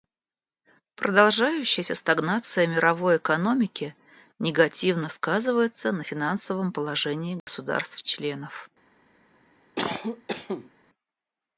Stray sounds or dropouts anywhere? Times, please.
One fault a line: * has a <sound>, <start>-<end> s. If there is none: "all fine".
* has a dropout, 7.4-7.5 s
* has a cough, 9.8-10.7 s